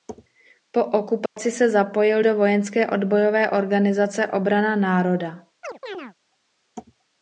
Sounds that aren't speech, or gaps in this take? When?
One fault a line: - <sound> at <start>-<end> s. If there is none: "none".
- dropout at 1.3-1.4 s
- chirp at 5.6-6.1 s